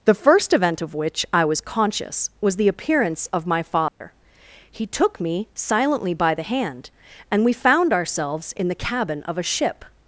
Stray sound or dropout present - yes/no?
yes